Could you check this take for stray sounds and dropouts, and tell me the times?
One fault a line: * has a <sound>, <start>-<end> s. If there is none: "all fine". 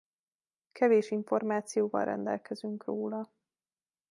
all fine